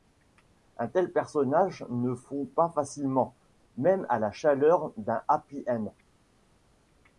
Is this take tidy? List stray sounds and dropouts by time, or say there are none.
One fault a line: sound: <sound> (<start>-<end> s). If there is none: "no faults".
no faults